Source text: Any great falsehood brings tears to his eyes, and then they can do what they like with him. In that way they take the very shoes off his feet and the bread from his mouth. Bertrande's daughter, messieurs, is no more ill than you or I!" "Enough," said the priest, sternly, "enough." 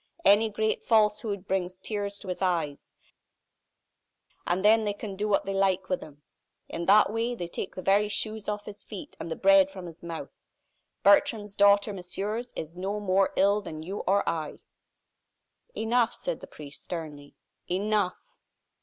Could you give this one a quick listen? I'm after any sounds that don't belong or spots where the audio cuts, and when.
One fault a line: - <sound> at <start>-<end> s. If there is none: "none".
none